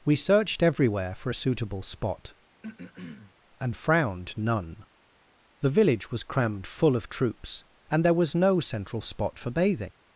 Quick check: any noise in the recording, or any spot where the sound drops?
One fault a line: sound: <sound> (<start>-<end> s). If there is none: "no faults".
sound: throat clearing (2.6-3.3 s)